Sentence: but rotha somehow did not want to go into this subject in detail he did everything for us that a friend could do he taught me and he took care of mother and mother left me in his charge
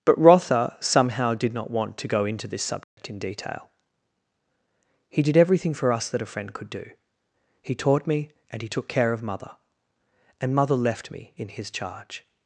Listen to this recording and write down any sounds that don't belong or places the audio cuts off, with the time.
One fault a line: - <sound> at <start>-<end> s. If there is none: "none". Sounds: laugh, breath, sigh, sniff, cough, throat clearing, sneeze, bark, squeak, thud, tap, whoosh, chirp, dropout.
- dropout at 2.8-3.0 s